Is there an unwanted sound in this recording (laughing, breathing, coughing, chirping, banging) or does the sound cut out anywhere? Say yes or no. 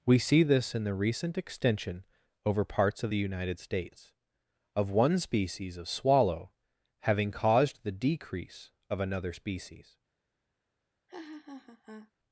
yes